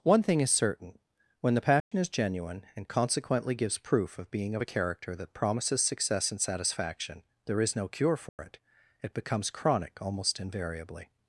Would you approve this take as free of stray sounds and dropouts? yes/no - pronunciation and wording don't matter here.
no